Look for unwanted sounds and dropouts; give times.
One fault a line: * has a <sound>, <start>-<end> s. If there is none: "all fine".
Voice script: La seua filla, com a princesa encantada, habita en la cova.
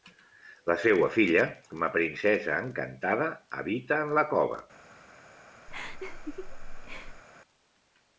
* has a laugh, 5.7-7.2 s